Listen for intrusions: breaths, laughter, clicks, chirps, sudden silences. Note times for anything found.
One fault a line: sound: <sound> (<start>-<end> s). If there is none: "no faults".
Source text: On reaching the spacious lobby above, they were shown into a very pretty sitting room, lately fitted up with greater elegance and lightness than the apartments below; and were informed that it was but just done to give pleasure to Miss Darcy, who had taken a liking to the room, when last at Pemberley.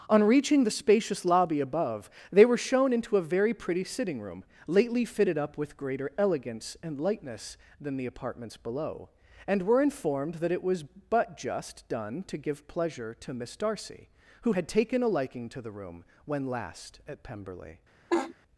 sound: laugh (18.1-18.3 s)